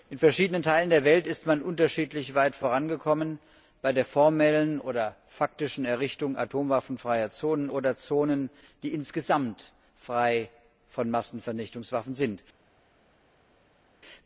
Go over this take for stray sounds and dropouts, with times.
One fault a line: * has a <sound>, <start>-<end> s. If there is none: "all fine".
all fine